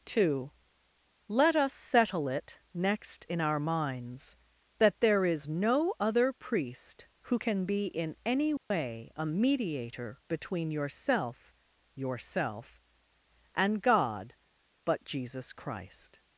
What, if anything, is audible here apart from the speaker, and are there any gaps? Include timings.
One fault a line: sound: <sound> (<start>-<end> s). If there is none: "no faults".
sound: dropout (8.6-8.7 s)